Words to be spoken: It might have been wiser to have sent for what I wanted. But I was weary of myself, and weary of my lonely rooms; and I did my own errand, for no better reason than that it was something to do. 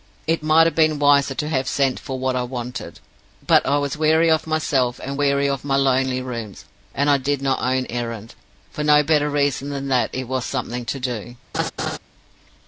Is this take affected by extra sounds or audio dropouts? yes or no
yes